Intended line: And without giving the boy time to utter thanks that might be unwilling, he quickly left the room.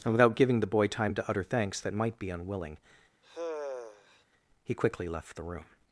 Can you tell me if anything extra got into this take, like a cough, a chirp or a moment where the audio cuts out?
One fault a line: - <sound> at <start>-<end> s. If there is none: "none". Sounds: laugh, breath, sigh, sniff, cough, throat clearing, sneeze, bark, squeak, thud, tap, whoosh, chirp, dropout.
- sigh at 3.2-4.2 s